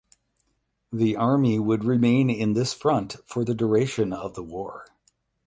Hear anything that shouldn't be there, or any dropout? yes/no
no